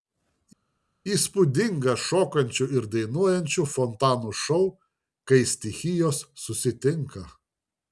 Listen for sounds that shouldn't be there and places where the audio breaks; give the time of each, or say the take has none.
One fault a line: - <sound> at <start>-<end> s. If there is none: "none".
none